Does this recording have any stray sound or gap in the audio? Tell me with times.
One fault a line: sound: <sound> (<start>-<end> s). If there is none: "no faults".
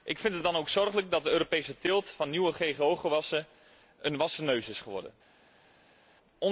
no faults